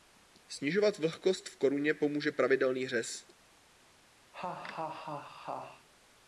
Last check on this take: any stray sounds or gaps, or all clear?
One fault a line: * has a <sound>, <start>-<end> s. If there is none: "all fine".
* has a laugh, 4.3-5.9 s